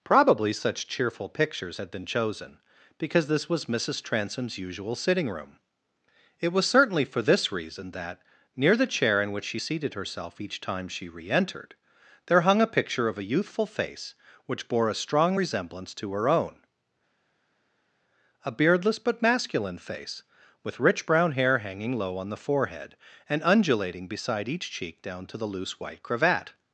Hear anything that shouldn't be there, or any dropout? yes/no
no